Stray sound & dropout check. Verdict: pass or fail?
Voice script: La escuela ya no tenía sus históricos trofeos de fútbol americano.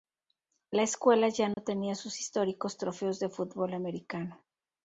fail